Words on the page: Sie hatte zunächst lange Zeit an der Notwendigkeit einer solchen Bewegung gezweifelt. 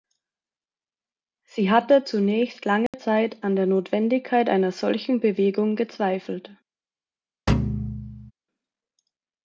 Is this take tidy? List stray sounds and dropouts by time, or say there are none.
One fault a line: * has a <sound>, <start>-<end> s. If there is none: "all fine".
* has a dropout, 2.9-2.9 s
* has a thud, 7.5-8.3 s